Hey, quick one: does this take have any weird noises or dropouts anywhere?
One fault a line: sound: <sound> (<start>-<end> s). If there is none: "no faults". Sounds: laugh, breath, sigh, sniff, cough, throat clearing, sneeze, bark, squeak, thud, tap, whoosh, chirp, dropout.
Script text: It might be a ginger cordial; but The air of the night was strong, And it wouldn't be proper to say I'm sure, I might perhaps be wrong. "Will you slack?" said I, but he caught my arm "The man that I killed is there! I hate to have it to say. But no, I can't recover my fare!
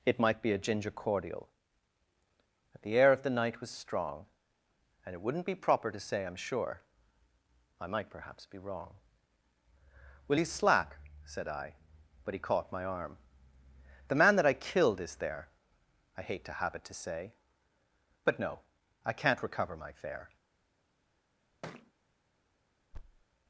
sound: thud (21.6-21.9 s)
sound: thud (22.9-23.2 s)